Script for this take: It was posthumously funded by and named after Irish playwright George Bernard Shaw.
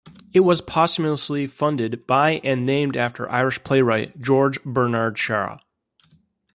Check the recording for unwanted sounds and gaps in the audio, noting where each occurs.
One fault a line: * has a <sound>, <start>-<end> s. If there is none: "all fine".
all fine